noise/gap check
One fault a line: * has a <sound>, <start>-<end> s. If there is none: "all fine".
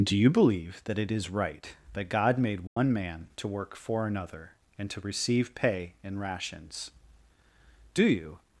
* has a dropout, 2.7-2.8 s